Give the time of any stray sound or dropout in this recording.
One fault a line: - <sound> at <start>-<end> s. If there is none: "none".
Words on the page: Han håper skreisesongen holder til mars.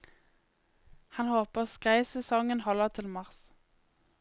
none